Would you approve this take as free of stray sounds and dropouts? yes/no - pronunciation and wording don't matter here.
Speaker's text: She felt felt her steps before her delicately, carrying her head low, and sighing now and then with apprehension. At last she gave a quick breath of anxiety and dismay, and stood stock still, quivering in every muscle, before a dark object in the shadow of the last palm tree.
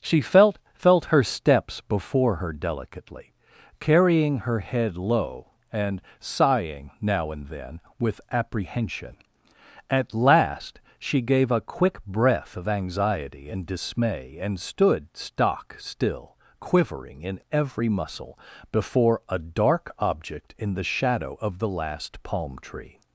yes